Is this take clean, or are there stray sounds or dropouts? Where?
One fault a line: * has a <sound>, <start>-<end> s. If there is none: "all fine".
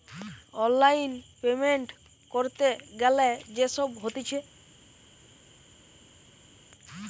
all fine